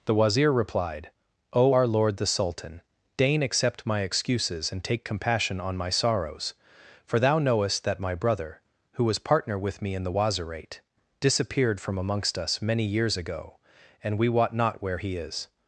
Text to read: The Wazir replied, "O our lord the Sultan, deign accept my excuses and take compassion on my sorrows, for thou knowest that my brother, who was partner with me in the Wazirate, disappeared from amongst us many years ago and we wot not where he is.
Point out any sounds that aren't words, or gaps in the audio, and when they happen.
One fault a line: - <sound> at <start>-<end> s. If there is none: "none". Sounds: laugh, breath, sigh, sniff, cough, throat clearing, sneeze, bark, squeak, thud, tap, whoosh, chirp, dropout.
none